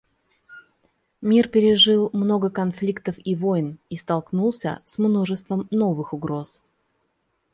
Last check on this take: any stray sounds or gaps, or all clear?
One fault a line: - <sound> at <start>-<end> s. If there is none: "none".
none